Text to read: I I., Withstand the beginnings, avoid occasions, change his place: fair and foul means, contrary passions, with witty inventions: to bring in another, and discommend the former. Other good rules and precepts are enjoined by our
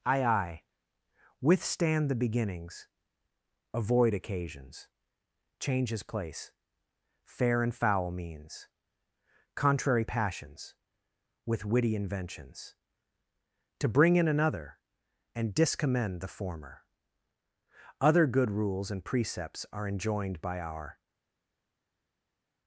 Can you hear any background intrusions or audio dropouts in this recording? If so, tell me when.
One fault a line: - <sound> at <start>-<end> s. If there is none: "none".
none